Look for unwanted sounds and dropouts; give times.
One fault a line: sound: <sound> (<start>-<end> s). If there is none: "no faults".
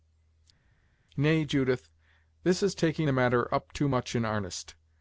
no faults